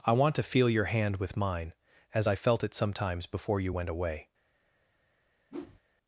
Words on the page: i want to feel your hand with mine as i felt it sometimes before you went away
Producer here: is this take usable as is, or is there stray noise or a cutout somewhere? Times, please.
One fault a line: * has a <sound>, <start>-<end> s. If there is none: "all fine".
* has a whoosh, 5.5-5.8 s